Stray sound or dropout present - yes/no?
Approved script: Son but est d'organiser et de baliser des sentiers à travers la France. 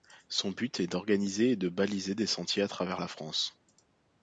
no